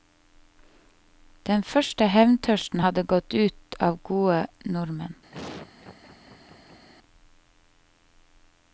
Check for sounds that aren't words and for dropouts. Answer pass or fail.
fail